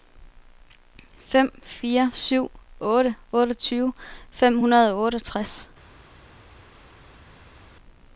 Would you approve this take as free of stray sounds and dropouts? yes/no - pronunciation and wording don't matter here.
yes